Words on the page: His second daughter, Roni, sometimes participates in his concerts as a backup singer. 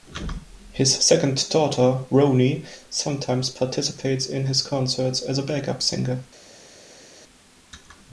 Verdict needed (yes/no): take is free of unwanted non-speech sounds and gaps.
yes